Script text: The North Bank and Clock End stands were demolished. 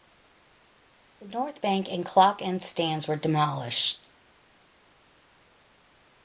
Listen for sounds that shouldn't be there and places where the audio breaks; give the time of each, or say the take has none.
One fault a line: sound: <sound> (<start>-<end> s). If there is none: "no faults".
no faults